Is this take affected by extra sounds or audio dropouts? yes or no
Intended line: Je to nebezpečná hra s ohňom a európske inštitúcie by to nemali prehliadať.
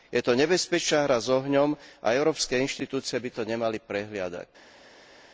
no